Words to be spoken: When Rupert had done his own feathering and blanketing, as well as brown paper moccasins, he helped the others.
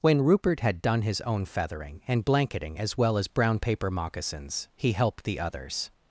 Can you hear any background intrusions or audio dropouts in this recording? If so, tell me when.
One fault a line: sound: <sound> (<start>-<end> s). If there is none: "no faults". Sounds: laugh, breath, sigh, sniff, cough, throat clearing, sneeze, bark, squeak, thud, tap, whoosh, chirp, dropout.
no faults